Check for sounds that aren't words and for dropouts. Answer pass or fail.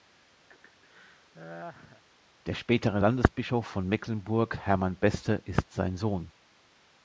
fail